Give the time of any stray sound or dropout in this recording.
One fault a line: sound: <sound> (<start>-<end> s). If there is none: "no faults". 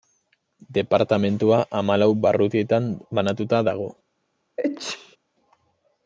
sound: sneeze (4.6-5.2 s)